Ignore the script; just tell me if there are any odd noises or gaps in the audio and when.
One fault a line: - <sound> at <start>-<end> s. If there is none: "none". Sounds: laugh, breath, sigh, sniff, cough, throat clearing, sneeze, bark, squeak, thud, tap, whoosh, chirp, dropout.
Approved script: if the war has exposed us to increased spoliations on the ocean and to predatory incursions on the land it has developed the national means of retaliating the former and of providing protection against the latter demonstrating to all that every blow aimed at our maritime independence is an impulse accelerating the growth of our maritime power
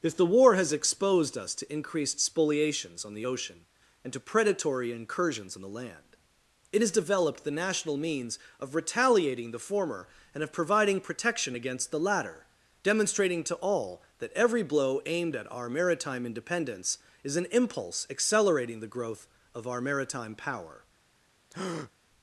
- breath at 21.5-21.9 s